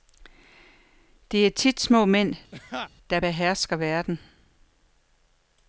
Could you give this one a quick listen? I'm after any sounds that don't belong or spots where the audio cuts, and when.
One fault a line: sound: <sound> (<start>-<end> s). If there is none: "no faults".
sound: laugh (2.5-2.9 s)